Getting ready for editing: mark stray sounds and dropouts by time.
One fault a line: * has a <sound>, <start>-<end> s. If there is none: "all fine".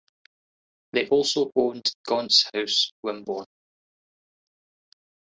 all fine